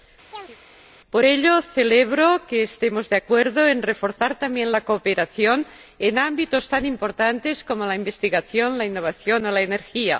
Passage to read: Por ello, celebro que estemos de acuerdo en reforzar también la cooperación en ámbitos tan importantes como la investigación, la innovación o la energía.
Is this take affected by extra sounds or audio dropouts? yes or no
yes